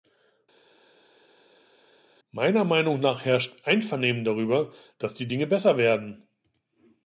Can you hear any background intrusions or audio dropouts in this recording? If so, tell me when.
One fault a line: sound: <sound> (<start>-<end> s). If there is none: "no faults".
no faults